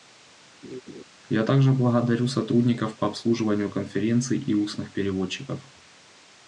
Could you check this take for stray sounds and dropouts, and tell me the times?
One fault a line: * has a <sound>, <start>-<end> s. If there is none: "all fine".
* has a laugh, 0.6-1.0 s